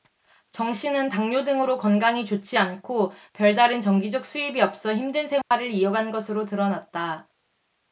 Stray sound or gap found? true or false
true